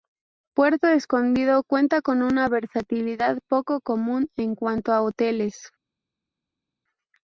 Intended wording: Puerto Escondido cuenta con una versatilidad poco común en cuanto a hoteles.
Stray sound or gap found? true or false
false